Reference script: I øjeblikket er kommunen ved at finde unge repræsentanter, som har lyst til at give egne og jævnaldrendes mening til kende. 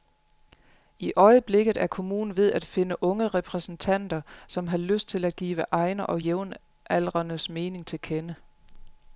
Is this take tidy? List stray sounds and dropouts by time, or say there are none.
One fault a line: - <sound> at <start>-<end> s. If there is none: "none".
none